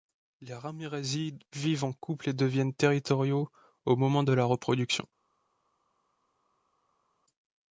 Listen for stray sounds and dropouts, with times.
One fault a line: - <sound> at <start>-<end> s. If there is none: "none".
none